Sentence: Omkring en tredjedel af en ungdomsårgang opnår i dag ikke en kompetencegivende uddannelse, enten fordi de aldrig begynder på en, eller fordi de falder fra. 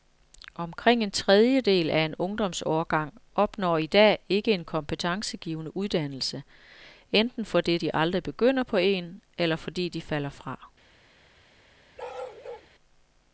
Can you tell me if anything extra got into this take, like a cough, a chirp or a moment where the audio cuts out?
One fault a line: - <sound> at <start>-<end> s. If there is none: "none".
- bark at 12.0-12.7 s